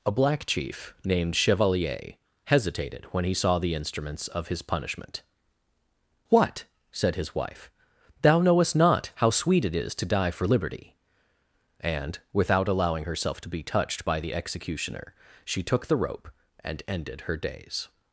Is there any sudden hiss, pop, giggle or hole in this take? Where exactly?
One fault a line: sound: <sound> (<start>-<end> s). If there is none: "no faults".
no faults